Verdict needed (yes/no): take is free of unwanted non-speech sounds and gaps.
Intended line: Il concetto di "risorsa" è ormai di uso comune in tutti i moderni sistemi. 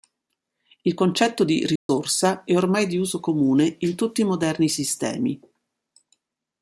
no